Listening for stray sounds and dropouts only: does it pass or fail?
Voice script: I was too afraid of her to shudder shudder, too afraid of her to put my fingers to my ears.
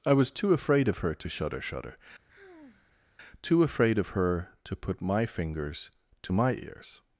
fail